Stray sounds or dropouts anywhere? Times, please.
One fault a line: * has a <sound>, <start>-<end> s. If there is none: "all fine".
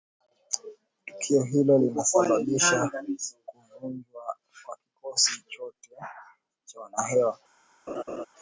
* has a laugh, 7.9-8.3 s